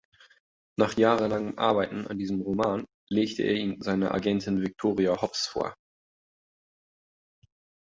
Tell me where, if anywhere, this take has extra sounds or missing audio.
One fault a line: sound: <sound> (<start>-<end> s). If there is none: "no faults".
no faults